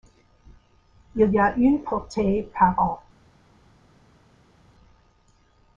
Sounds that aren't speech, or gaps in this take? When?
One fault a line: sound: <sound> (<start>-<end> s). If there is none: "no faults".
no faults